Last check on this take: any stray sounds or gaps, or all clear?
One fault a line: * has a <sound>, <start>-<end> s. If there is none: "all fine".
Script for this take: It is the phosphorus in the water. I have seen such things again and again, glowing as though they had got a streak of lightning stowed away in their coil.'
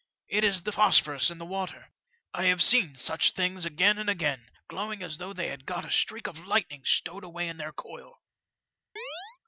* has a chirp, 9.0-9.4 s